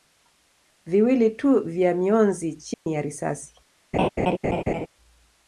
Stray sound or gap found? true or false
true